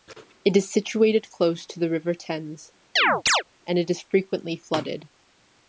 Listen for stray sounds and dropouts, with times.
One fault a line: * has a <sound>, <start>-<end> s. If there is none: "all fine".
* has a chirp, 3.0-3.4 s